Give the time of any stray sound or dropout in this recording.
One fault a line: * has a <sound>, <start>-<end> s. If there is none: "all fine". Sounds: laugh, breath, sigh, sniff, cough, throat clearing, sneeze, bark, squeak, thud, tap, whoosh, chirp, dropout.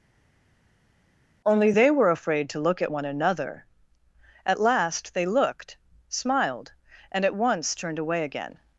all fine